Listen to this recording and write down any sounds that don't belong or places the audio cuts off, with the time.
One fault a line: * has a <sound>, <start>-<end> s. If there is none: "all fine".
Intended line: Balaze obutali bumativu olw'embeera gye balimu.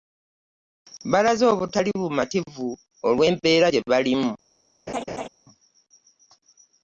* has a laugh, 4.9-5.3 s